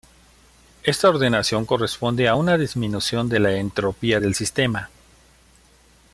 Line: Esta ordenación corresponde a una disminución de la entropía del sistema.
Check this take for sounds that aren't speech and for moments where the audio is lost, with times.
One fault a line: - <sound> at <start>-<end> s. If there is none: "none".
none